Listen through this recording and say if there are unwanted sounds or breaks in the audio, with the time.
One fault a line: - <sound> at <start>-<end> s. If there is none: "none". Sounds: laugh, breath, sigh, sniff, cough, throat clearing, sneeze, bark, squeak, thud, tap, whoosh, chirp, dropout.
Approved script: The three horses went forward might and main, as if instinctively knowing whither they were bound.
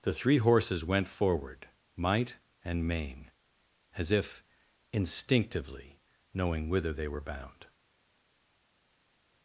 none